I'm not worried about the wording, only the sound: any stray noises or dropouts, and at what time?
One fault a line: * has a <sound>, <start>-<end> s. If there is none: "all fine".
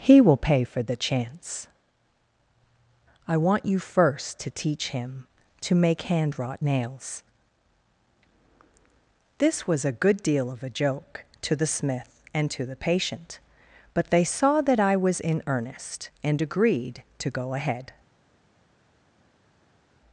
all fine